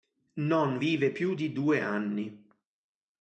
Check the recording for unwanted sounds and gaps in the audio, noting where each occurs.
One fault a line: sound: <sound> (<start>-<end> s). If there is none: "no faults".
no faults